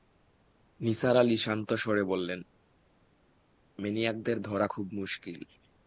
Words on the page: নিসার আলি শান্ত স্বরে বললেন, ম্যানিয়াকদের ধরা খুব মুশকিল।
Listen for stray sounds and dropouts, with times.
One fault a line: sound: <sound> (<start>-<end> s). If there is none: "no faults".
no faults